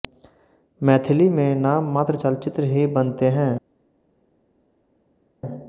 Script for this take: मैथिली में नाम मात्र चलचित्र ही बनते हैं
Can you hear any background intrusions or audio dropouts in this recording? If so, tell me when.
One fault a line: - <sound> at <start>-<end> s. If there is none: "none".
none